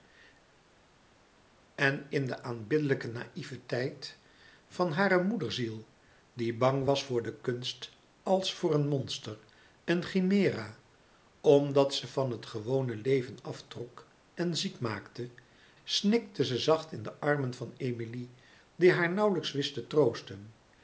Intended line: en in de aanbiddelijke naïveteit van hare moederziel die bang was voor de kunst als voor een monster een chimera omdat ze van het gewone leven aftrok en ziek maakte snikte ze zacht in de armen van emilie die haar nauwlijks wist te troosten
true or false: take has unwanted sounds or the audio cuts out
false